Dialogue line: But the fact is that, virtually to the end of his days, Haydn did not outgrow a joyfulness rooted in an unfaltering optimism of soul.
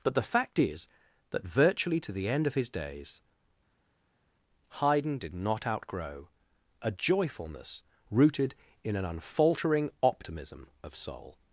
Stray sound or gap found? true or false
false